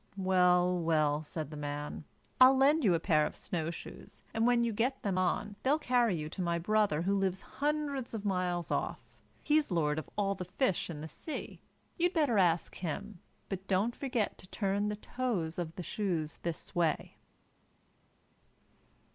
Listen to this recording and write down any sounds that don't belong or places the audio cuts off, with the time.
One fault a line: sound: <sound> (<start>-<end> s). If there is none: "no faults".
no faults